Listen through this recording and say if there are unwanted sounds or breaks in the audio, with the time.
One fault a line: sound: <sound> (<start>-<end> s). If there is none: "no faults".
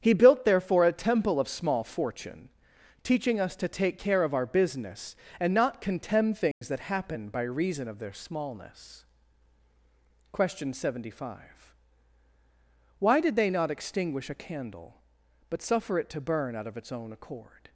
sound: dropout (6.5-6.6 s)